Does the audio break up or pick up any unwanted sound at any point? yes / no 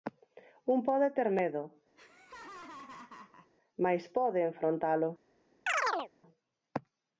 yes